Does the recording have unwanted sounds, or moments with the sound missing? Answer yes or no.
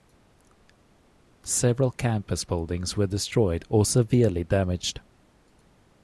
no